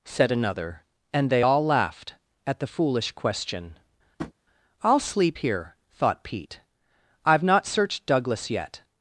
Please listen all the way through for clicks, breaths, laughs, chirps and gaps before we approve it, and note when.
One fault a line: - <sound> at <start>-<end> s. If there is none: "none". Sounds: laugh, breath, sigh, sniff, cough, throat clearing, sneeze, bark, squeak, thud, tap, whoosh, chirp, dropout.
- tap at 4.2-4.3 s